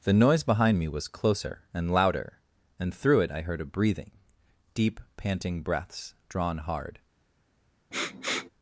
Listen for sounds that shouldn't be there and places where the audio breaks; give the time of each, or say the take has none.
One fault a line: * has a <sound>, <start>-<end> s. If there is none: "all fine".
* has a sniff, 7.9-8.5 s